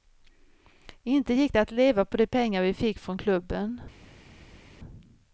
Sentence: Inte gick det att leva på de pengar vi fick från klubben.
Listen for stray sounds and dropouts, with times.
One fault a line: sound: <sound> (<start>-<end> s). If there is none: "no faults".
no faults